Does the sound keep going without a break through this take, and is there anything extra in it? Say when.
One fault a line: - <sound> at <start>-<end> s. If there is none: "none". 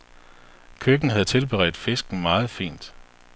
none